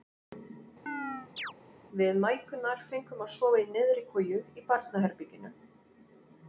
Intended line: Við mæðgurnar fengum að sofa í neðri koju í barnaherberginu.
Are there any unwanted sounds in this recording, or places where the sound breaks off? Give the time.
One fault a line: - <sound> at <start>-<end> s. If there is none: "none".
- chirp at 0.9-1.5 s